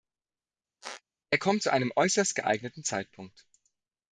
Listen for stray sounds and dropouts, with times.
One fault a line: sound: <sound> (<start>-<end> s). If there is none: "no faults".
sound: squeak (0.8-1.0 s)